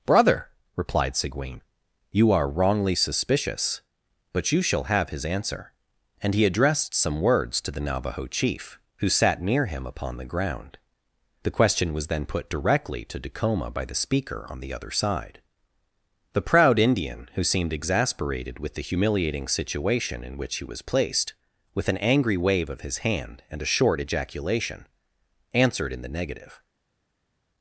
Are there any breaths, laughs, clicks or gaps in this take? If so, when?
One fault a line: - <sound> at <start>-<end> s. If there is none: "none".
none